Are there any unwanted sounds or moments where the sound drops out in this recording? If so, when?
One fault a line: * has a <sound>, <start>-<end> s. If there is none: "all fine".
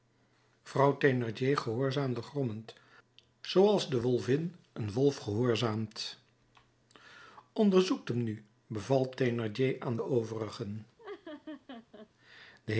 * has a laugh, 11.0-12.1 s